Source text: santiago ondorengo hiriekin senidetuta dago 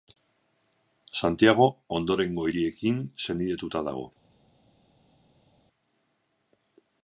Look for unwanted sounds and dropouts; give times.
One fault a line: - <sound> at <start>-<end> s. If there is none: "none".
none